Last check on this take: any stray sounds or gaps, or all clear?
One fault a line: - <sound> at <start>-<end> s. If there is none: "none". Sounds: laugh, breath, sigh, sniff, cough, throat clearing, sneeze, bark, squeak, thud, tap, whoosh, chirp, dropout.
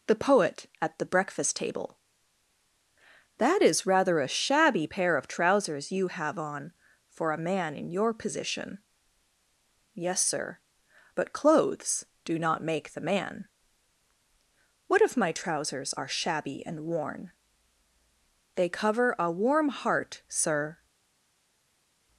none